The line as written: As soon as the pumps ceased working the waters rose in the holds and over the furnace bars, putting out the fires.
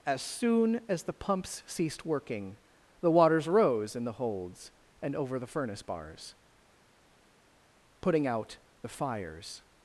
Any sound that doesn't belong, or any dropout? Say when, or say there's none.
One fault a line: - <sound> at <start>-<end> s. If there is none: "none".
none